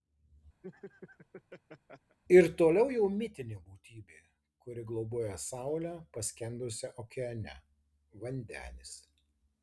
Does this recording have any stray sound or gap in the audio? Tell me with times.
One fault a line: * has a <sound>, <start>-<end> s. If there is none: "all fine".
* has a laugh, 0.6-2.2 s